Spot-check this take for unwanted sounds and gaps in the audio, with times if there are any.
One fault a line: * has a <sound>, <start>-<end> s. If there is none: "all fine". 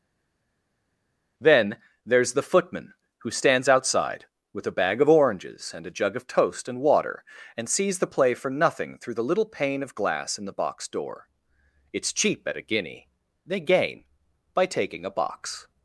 all fine